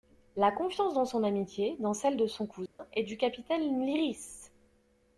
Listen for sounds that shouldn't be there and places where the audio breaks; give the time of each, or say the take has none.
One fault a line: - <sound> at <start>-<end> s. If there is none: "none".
- dropout at 2.7-2.8 s